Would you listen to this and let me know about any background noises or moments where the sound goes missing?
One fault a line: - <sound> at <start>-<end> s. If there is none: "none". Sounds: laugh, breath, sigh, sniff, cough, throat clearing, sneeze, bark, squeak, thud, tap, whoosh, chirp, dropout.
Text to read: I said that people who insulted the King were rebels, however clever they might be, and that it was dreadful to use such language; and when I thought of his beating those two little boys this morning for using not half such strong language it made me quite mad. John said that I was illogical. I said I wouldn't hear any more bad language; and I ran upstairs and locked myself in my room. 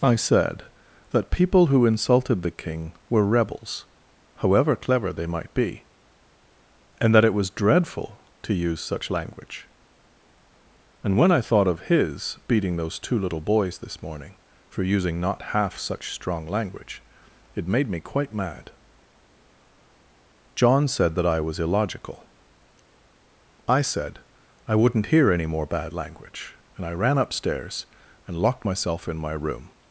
none